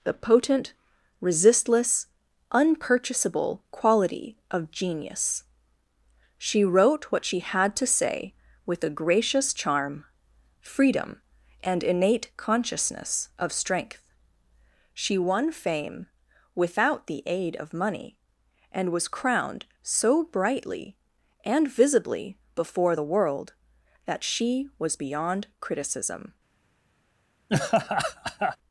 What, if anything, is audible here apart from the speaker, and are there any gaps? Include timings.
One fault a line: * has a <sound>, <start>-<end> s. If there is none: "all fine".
* has a laugh, 27.5-28.6 s